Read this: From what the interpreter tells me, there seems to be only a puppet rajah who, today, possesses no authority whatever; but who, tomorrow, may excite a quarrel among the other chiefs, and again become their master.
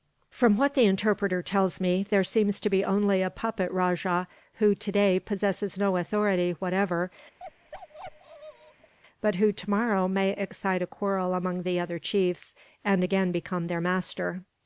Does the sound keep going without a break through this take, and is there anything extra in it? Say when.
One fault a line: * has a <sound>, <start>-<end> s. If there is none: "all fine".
* has a bark, 7.4-8.9 s